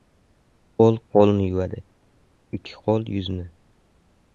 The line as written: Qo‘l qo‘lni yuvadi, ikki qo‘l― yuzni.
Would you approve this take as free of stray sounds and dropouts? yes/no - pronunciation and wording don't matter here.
yes